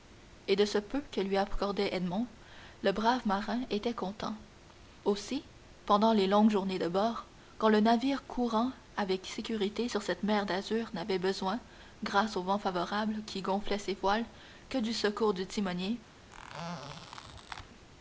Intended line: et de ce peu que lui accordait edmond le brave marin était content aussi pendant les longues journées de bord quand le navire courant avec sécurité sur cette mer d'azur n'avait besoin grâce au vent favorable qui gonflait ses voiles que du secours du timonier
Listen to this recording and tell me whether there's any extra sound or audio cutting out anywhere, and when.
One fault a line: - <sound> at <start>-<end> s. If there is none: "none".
- squeak at 16.3-17.7 s